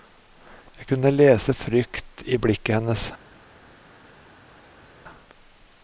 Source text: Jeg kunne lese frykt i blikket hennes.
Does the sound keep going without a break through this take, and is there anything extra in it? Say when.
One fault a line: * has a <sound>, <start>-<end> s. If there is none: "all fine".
all fine